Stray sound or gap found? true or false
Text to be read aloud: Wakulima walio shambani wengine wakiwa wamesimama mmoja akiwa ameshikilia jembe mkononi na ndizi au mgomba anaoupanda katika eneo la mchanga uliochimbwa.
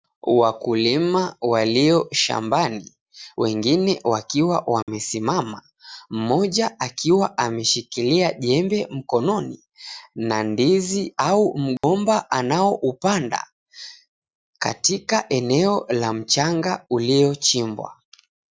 true